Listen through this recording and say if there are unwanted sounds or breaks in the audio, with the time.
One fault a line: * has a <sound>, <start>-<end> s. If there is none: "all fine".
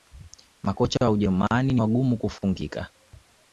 all fine